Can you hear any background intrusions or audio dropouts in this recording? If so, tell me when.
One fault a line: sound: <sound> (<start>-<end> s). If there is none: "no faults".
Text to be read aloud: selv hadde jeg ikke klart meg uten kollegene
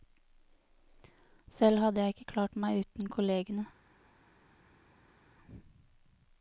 no faults